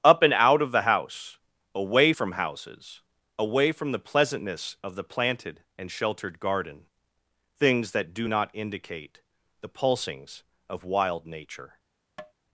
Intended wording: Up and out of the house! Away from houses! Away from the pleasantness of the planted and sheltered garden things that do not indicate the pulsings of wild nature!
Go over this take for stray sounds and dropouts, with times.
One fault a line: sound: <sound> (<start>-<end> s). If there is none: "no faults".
sound: tap (12.2-12.3 s)